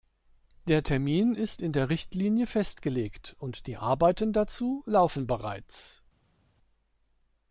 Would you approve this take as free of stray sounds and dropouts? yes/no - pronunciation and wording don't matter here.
yes